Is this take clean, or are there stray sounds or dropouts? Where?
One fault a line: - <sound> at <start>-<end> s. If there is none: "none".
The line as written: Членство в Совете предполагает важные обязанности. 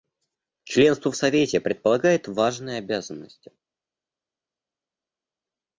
none